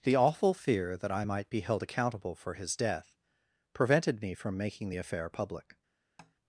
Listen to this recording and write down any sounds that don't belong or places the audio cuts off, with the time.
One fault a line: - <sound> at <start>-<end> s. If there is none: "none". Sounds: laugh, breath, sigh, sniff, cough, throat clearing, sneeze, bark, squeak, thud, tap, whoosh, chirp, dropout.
- tap at 6.2-6.3 s